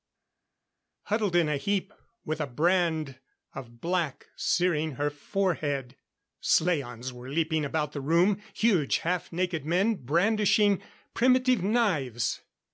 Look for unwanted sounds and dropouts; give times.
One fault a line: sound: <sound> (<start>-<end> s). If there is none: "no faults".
no faults